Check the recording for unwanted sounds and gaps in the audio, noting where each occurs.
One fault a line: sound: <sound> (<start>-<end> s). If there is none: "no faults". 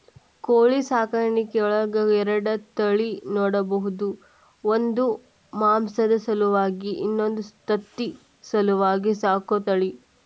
no faults